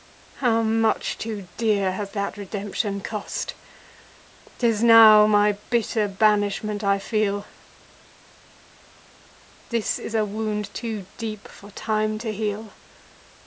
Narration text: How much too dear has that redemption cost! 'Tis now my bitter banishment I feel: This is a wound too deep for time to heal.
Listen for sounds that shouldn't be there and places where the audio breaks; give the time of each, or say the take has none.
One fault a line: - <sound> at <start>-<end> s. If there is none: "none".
none